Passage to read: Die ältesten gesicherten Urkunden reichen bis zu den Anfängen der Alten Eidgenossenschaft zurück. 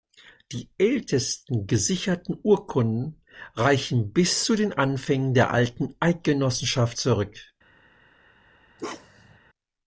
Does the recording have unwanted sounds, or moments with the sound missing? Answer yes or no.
yes